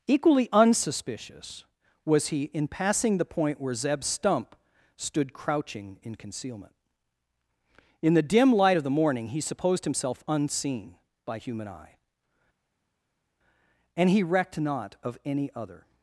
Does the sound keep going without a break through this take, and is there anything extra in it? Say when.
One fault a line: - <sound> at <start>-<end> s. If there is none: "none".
none